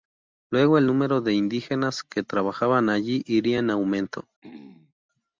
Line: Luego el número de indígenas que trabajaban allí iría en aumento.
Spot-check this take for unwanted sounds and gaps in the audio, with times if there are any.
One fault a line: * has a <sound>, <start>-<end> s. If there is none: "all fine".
* has a throat clearing, 4.4-4.9 s